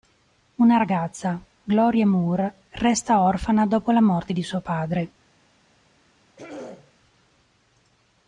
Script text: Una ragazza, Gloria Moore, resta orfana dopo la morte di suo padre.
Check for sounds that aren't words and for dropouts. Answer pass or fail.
fail